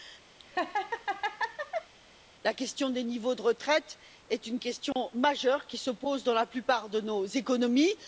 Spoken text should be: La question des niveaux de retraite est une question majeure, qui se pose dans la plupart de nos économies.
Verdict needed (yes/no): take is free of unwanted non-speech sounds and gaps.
no